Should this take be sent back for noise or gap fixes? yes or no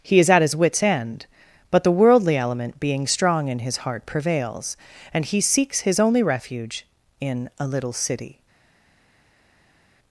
no